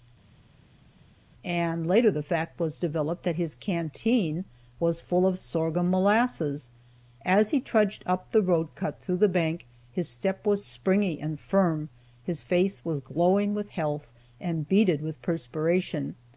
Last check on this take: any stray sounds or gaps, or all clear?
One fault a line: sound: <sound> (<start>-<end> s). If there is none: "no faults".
no faults